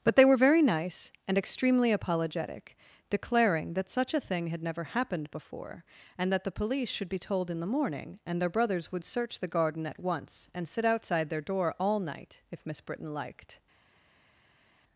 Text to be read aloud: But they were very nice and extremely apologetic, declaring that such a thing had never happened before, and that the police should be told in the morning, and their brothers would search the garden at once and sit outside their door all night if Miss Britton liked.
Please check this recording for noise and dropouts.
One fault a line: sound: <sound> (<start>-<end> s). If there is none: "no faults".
no faults